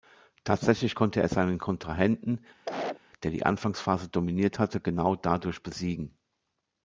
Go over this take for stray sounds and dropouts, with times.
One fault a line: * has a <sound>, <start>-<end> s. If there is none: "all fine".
* has a cough, 2.7-3.0 s